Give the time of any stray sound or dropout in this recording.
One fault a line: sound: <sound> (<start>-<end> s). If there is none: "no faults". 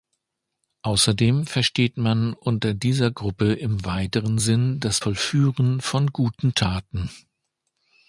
no faults